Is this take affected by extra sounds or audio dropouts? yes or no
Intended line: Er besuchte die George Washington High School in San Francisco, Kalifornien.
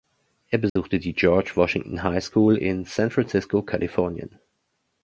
yes